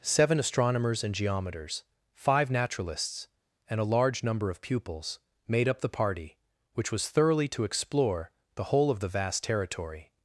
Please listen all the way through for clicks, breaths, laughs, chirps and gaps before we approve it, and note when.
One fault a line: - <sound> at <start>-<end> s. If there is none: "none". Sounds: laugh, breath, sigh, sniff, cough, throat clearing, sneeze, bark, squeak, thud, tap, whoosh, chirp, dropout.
none